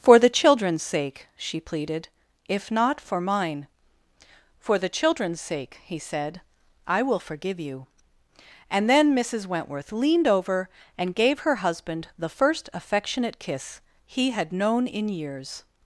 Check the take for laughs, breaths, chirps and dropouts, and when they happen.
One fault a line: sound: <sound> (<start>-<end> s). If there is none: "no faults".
no faults